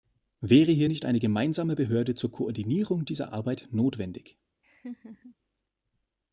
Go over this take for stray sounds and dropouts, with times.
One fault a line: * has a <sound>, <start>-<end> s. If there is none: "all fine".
* has a laugh, 4.6-5.4 s